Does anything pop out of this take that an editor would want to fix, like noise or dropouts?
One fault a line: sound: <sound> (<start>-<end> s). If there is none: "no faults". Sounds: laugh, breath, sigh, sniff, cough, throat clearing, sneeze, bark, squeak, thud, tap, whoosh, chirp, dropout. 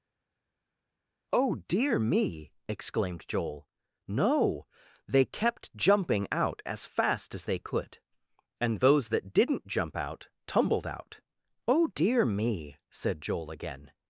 no faults